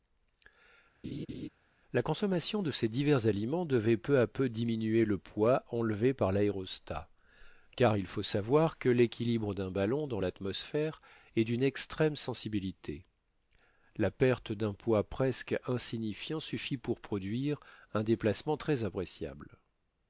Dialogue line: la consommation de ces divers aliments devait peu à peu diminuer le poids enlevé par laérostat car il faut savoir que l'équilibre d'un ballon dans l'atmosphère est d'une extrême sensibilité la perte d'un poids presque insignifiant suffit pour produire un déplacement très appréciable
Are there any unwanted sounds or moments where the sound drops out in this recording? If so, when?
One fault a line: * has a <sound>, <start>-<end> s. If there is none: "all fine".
* has a laugh, 1.0-1.5 s